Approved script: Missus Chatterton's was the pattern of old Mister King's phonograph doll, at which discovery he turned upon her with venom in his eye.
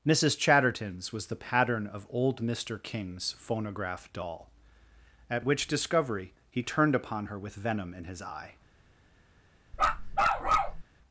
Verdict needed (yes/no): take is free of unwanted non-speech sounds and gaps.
no